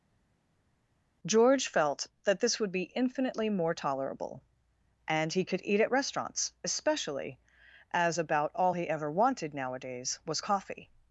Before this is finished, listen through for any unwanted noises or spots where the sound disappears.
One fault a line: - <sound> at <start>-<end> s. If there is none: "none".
none